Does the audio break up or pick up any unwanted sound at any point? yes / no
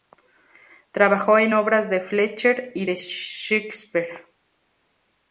no